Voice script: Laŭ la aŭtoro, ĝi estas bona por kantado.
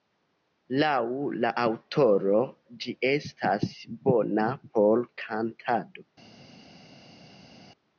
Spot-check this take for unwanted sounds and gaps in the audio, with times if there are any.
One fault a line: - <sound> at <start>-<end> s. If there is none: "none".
none